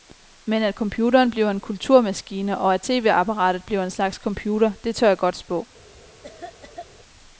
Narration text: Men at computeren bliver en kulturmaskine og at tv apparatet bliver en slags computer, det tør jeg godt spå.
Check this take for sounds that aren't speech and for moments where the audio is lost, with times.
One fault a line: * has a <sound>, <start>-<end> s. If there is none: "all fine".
* has a cough, 6.2-6.9 s